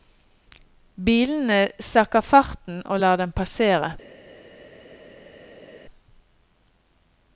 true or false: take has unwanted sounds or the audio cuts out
false